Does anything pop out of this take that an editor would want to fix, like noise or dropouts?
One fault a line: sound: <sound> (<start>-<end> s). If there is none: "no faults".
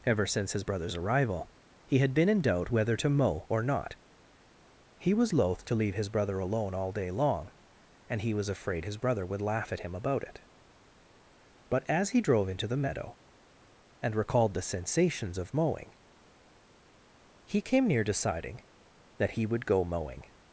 no faults